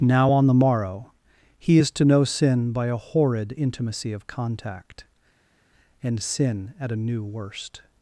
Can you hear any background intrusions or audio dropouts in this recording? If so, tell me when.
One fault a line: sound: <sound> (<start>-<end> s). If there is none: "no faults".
no faults